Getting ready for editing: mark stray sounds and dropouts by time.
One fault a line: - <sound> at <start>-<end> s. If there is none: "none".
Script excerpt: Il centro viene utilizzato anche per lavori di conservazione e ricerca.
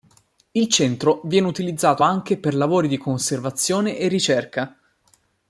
none